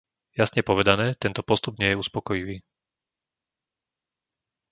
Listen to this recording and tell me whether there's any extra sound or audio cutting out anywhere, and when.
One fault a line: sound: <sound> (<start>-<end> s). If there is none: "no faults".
no faults